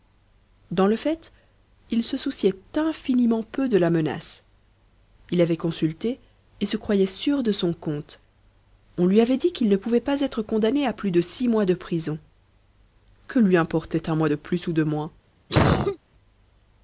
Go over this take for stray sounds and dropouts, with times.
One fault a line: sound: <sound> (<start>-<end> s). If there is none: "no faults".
sound: cough (15.5-16.0 s)